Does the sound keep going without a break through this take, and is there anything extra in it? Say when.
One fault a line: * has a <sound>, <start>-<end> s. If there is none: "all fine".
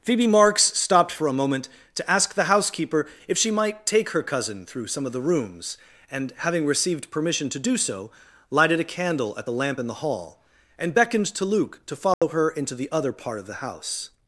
* has a dropout, 12.1-12.2 s